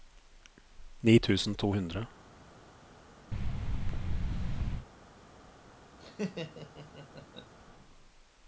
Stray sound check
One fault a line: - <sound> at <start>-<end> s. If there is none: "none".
- thud at 3.3-4.9 s
- laugh at 6.0-7.5 s